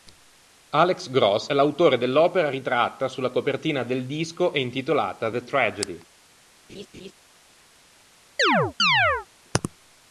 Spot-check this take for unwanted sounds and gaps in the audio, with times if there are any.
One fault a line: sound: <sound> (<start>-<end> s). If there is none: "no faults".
sound: laugh (6.7-7.1 s)
sound: chirp (8.4-9.3 s)